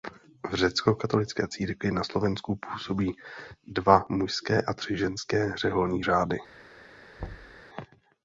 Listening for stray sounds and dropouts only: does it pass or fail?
fail